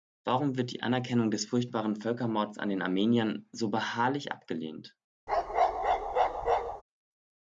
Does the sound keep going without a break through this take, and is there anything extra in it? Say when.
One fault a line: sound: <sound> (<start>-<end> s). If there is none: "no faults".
sound: bark (5.3-6.8 s)